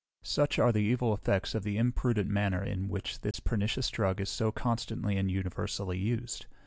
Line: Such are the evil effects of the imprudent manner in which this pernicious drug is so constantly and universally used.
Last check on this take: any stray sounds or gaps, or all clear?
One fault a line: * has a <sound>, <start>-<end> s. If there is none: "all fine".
* has a dropout, 3.3-3.3 s